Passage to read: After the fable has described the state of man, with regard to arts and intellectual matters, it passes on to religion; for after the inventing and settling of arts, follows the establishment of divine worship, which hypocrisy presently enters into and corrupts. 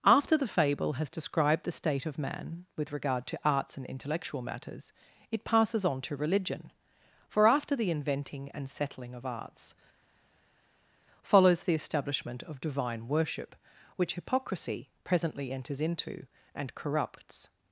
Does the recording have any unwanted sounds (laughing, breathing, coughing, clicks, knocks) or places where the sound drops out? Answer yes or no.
no